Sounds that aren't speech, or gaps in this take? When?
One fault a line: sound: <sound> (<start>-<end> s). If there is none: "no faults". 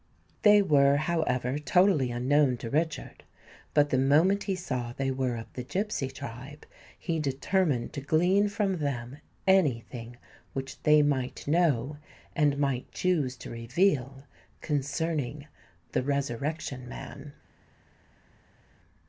no faults